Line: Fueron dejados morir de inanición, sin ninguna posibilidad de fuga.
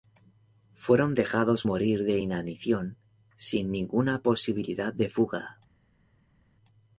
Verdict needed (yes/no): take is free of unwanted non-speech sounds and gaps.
yes